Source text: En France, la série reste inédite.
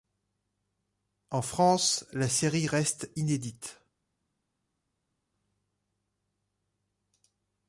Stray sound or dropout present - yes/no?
no